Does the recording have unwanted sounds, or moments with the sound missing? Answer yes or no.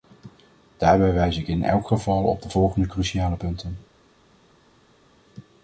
no